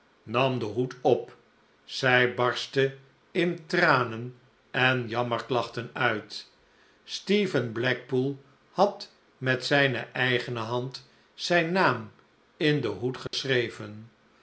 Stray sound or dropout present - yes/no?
yes